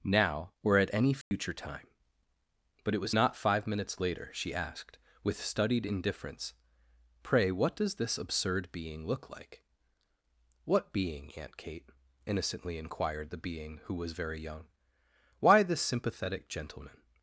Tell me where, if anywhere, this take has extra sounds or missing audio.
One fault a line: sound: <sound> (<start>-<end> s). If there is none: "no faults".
sound: dropout (1.2-1.3 s)